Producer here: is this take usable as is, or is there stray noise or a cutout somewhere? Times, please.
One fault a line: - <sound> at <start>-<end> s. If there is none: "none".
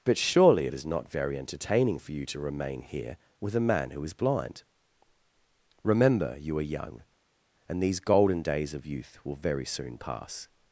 none